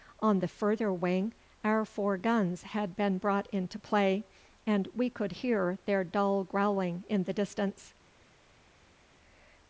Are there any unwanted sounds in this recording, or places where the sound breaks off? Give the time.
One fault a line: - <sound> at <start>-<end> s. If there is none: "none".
none